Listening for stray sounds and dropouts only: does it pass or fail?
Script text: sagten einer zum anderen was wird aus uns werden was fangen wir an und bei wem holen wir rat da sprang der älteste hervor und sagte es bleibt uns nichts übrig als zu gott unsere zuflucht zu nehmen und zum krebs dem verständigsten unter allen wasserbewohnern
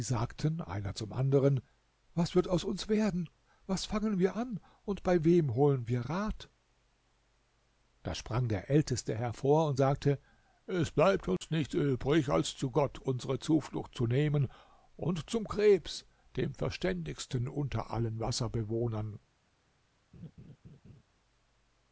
fail